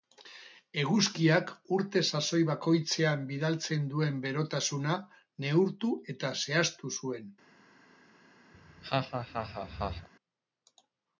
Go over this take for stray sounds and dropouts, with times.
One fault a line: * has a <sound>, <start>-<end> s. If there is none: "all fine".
* has a laugh, 8.5-10.1 s